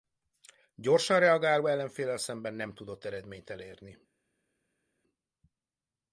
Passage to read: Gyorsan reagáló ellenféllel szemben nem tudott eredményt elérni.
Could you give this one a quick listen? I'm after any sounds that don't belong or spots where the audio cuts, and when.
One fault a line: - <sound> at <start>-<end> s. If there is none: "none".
none